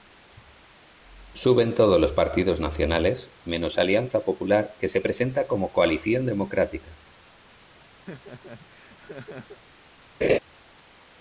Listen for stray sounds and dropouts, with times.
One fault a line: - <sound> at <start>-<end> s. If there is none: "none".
- laugh at 8.1-9.6 s
- laugh at 10.2-10.4 s